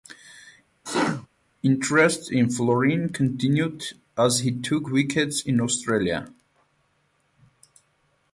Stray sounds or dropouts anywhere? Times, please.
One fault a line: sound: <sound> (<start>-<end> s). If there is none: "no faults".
sound: sneeze (0.8-1.3 s)